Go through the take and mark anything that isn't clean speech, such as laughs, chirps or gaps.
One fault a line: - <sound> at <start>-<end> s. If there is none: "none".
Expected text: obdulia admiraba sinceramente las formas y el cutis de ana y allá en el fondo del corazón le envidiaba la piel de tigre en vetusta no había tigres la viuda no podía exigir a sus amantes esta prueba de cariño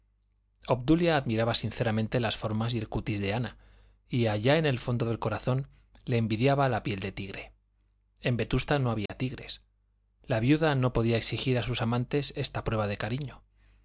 - dropout at 9.1-9.1 s